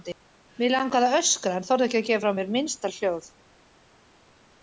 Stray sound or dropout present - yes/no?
no